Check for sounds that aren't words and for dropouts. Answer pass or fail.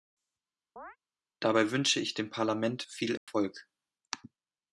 fail